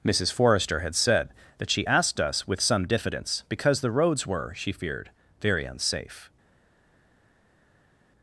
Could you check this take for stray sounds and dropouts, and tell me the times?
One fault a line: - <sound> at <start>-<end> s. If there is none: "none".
none